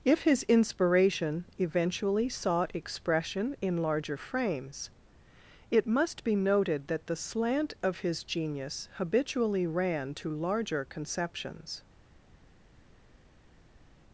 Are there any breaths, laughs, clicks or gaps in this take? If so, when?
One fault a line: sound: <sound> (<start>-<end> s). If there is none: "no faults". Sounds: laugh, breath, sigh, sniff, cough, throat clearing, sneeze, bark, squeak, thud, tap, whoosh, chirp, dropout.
no faults